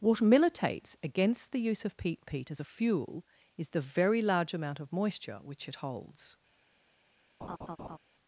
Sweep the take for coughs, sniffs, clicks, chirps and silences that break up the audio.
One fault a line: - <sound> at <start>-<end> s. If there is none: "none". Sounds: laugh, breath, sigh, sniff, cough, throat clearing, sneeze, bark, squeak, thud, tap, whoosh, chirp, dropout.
- laugh at 7.4-8.0 s